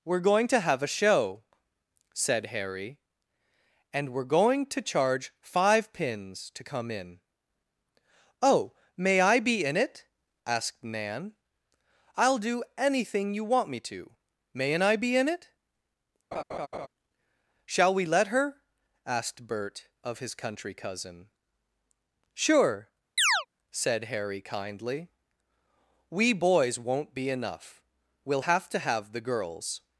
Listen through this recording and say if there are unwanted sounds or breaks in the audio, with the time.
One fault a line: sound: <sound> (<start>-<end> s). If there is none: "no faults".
sound: laugh (16.3-16.9 s)
sound: chirp (23.2-23.5 s)